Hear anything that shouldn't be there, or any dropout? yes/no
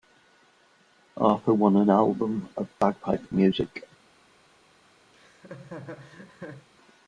yes